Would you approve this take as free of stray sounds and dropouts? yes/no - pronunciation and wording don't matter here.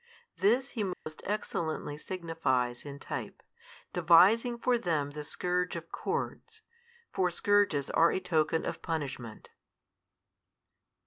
no